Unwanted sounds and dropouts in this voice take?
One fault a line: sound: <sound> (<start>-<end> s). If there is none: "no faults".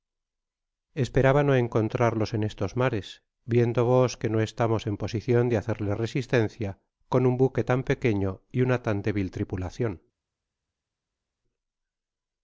no faults